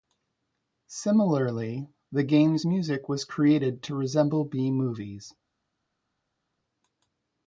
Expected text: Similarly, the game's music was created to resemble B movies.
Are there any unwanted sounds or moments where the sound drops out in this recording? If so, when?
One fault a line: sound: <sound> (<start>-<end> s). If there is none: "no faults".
no faults